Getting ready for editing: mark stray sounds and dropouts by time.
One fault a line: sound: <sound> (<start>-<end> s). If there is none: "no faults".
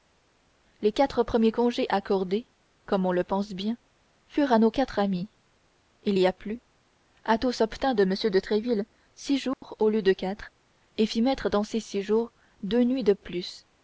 sound: dropout (9.5-9.6 s)